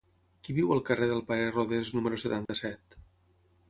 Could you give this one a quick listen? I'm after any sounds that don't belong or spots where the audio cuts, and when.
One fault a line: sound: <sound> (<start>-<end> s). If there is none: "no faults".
sound: dropout (2.5-2.5 s)